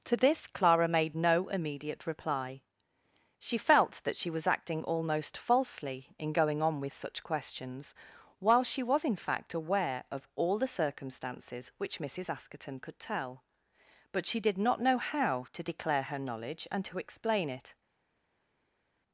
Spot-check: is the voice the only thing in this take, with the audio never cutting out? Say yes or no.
yes